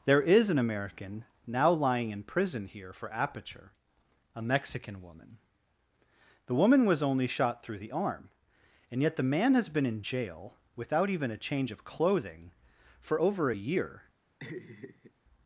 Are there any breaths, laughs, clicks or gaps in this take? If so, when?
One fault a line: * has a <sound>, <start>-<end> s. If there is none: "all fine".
* has a laugh, 14.4-15.1 s